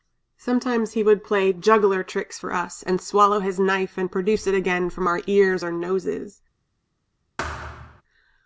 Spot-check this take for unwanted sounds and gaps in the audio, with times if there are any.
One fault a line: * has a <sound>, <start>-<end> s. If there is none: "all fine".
* has a thud, 7.4-8.0 s